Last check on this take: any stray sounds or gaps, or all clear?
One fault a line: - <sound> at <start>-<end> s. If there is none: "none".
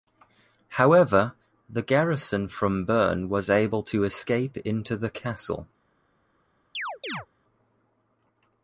- chirp at 6.7-7.3 s